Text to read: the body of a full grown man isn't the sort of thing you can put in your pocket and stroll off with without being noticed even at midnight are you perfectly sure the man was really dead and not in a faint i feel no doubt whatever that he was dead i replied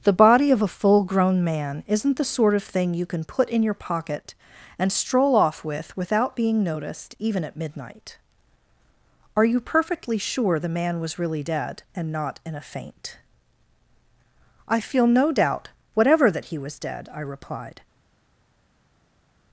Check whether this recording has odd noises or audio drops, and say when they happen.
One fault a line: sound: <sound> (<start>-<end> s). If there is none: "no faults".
no faults